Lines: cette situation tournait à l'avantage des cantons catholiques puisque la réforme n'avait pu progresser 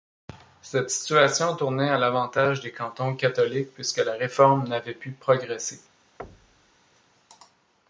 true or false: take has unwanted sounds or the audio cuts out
true